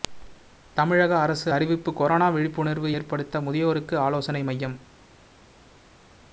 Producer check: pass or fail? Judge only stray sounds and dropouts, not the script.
pass